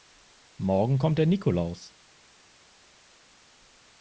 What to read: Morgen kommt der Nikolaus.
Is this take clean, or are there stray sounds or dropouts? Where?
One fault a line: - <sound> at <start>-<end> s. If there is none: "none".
none